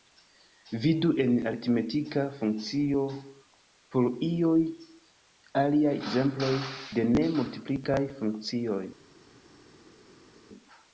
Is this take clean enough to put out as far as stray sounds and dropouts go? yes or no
yes